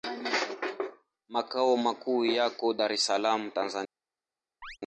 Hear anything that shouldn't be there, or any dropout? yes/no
yes